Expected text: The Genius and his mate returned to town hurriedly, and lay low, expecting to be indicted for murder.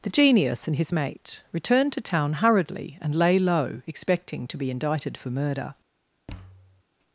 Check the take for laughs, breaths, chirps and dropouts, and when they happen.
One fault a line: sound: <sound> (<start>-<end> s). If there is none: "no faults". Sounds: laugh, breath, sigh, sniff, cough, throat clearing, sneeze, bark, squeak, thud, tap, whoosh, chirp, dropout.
sound: thud (6.3-6.8 s)